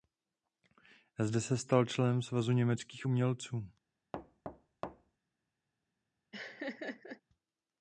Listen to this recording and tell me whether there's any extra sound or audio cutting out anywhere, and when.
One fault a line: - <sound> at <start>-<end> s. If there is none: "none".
- thud at 4.1-5.2 s
- laugh at 6.3-7.2 s